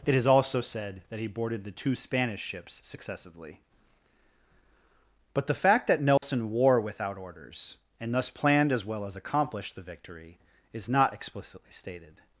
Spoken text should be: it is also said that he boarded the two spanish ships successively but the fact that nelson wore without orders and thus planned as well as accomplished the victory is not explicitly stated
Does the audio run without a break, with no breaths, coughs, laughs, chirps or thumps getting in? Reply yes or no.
no